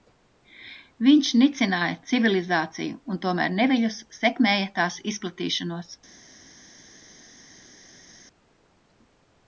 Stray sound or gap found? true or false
false